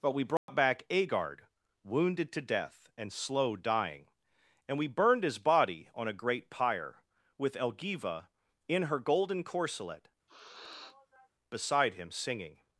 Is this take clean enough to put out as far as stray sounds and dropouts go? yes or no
no